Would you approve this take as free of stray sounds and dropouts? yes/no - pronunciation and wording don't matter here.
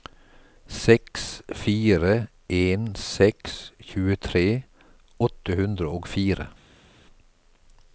yes